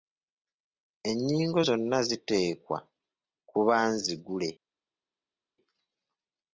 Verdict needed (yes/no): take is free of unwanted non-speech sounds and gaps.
yes